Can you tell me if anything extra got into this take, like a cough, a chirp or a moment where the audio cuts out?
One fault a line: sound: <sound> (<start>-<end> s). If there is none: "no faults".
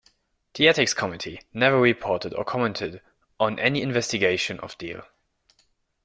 no faults